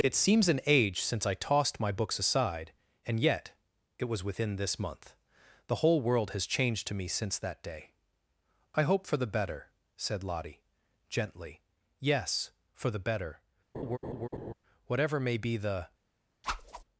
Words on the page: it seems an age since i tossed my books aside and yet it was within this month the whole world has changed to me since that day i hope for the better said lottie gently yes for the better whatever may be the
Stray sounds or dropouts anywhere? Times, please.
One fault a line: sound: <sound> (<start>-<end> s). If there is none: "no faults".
sound: laugh (13.7-14.5 s)
sound: whoosh (16.4-16.8 s)